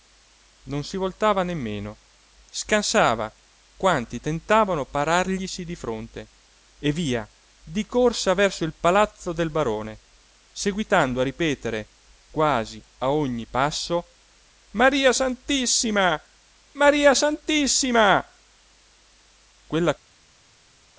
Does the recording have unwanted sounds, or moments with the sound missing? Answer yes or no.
no